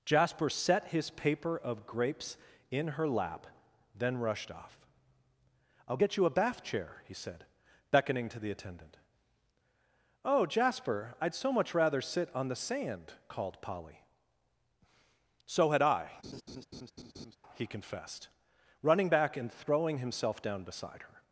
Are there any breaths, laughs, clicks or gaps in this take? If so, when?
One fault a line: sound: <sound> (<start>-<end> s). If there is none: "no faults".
sound: laugh (16.2-17.4 s)